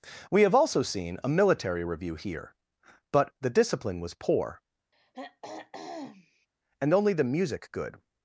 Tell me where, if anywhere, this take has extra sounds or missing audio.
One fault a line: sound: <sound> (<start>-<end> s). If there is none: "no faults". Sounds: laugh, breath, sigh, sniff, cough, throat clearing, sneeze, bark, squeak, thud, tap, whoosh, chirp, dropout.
sound: throat clearing (4.9-6.5 s)